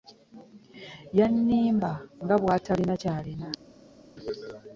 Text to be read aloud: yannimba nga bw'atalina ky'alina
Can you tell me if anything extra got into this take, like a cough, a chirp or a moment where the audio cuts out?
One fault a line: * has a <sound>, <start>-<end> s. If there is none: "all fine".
all fine